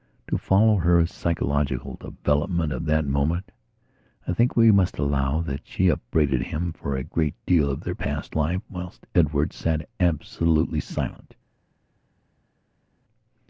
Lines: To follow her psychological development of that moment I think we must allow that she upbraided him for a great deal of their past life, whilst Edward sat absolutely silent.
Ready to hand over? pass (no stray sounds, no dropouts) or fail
pass